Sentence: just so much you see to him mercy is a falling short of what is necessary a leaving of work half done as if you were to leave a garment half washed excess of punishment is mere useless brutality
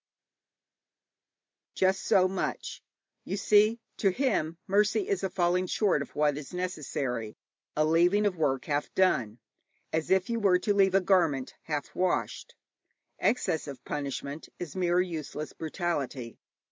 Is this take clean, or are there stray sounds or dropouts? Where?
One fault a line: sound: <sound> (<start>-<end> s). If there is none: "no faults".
no faults